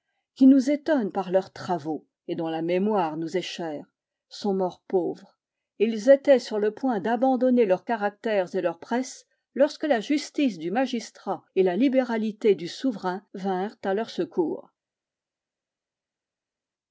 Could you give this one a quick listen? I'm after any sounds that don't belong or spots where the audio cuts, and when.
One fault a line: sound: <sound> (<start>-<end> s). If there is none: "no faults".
no faults